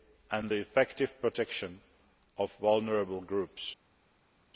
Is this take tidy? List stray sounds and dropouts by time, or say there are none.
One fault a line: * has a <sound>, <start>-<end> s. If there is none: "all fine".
all fine